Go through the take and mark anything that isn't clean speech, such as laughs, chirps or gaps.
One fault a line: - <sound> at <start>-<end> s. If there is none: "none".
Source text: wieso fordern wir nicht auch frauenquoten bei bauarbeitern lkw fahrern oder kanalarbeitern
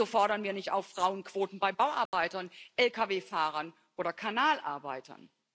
- dropout at 2.1-2.1 s